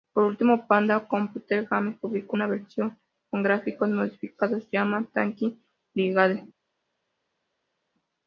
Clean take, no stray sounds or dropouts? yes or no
yes